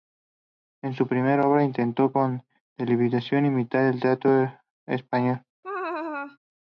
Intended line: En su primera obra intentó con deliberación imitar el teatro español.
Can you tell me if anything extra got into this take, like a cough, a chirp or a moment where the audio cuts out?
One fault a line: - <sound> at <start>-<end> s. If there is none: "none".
- laugh at 5.6-6.4 s